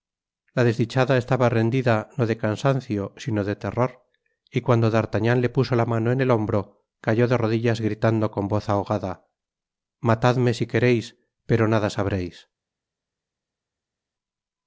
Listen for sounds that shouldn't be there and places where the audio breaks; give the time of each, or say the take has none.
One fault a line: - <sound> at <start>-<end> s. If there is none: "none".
none